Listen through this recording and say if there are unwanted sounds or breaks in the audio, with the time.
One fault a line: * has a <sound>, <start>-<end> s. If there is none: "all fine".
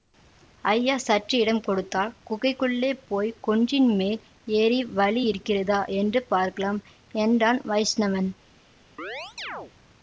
* has a chirp, 9.0-9.7 s